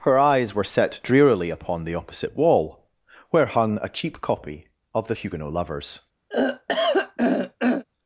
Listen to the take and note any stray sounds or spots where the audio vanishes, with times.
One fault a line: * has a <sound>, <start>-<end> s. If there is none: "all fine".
* has a throat clearing, 6.3-7.8 s